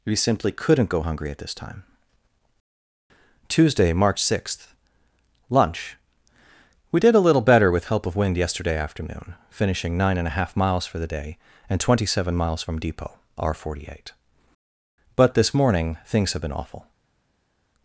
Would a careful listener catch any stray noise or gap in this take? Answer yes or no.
no